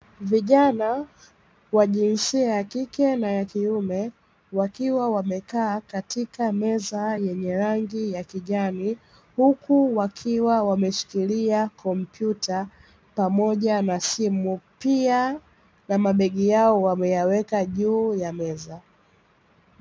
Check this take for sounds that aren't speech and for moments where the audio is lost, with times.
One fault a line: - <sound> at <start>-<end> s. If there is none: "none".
none